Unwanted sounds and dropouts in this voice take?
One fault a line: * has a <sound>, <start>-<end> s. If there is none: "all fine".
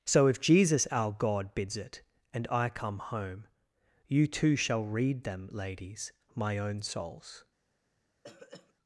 * has a throat clearing, 8.2-8.7 s